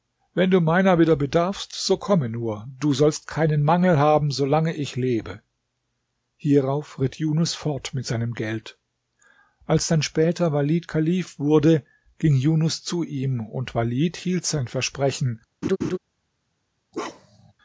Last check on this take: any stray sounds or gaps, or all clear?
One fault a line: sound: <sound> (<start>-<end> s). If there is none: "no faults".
sound: laugh (15.6-16.0 s)
sound: bark (16.9-17.5 s)